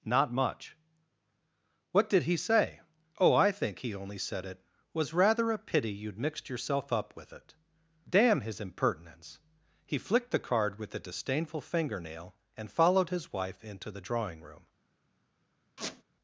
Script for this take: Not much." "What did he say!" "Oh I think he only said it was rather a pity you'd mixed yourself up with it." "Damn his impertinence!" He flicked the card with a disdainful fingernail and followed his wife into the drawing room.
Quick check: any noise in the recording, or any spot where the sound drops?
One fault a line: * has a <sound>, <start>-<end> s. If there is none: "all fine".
* has a squeak, 15.8-16.0 s